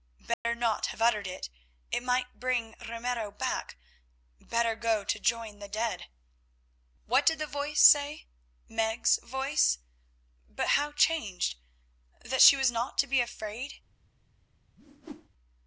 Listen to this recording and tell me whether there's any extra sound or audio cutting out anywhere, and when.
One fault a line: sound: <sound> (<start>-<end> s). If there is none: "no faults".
sound: dropout (0.3-0.4 s)
sound: whoosh (14.8-15.3 s)